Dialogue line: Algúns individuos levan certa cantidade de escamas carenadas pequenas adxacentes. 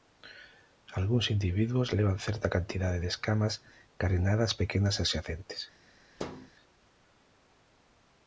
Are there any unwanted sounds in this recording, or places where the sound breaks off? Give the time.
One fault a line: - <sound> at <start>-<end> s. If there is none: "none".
- thud at 6.2-6.5 s